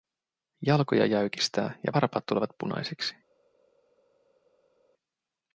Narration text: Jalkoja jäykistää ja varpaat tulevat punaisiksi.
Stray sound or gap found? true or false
false